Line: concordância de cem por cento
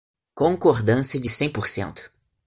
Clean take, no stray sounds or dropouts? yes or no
yes